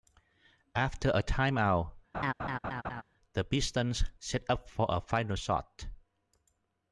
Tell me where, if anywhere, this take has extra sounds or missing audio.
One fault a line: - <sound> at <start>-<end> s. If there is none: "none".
- laugh at 2.1-3.0 s